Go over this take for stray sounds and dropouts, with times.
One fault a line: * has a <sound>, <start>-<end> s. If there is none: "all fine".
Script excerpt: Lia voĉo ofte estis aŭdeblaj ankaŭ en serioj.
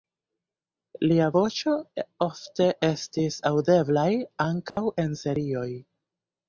* has a dropout, 4.7-4.8 s